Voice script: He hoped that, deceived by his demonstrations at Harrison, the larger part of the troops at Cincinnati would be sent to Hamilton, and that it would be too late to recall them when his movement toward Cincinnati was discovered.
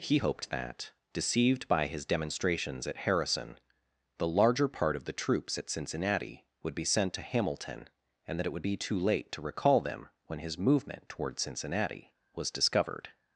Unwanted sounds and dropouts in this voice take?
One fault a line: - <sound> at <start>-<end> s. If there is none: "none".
none